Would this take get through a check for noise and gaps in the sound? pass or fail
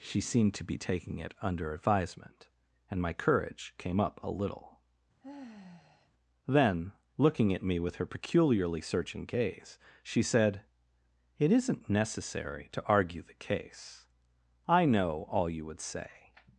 fail